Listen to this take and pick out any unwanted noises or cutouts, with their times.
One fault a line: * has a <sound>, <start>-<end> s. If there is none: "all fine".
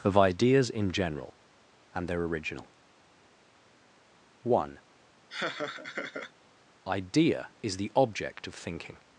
* has a laugh, 5.3-6.3 s